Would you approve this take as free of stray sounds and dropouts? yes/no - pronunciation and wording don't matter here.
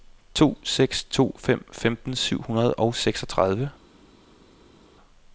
yes